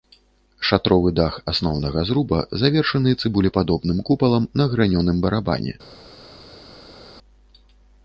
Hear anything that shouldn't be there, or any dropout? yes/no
no